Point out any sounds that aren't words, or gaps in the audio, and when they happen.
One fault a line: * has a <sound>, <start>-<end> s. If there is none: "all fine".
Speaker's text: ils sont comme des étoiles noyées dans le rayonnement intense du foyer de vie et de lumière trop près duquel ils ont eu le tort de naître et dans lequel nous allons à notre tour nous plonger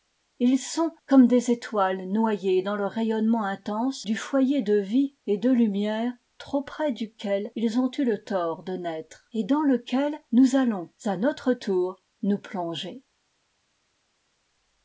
all fine